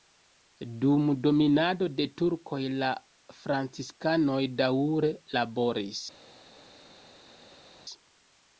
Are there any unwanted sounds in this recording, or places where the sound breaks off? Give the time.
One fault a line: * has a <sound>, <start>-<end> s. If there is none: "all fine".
all fine